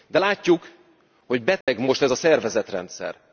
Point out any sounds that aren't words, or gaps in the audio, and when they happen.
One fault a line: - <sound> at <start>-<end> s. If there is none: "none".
- dropout at 1.6-1.7 s